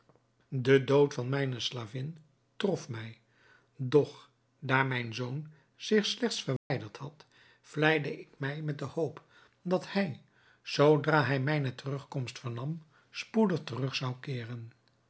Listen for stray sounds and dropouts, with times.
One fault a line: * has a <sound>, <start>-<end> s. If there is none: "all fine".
* has a dropout, 6.6-6.7 s